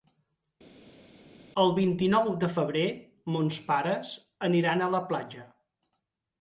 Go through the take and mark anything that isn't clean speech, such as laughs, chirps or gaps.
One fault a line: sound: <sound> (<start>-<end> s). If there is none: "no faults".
no faults